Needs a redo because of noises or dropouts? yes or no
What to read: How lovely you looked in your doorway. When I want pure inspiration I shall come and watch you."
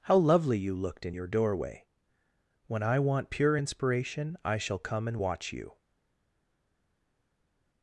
no